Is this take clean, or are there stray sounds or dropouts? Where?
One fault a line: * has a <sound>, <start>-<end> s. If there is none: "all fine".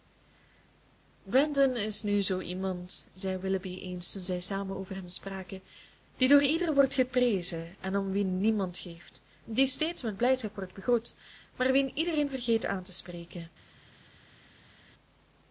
all fine